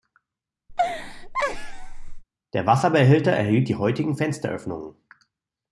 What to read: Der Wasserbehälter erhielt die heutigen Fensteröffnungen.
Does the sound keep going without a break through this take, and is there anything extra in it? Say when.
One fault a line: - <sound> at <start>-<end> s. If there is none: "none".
- laugh at 0.7-2.2 s